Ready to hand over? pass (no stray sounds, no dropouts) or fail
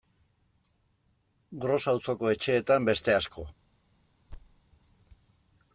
fail